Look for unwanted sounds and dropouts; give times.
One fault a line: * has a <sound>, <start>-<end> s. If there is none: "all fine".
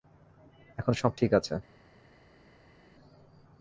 all fine